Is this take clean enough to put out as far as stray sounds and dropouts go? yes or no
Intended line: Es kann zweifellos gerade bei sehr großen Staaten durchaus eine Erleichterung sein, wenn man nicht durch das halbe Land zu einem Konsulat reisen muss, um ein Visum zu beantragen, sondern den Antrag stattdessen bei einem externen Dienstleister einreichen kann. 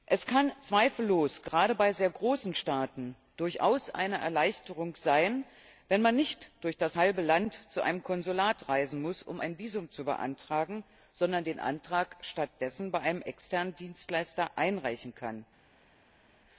yes